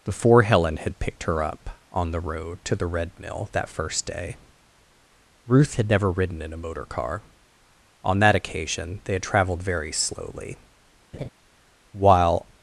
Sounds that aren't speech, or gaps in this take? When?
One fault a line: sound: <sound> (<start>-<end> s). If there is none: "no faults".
sound: laugh (11.1-11.3 s)